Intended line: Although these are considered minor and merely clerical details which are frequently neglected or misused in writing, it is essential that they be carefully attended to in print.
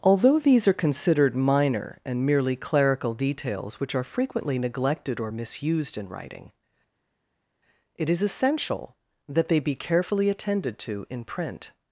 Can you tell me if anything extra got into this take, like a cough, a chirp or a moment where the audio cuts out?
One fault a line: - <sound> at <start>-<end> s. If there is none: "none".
none